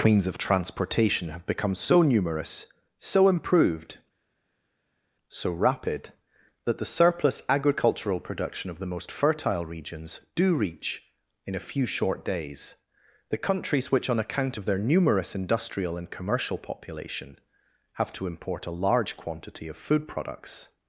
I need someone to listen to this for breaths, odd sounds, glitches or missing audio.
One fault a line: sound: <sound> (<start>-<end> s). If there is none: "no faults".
no faults